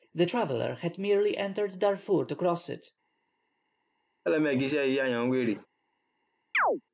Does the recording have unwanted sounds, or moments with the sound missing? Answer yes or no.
yes